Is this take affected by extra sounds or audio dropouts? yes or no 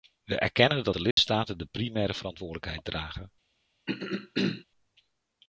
yes